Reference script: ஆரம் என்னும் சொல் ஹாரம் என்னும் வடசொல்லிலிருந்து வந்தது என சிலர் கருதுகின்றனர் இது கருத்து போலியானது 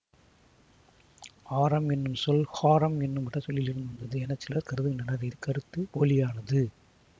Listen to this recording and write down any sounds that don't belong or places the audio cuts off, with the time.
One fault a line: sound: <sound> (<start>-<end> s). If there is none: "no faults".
no faults